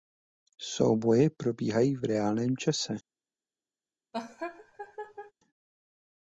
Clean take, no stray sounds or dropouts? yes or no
no